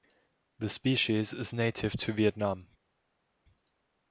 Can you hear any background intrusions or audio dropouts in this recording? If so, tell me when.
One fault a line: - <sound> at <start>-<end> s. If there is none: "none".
none